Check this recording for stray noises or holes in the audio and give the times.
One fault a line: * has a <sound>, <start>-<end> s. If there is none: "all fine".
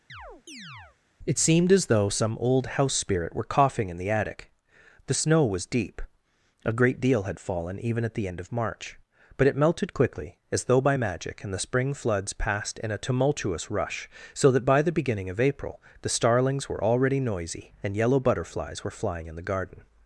* has a chirp, 0.1-1.0 s